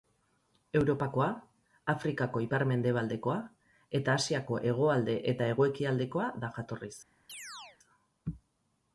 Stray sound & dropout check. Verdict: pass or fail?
fail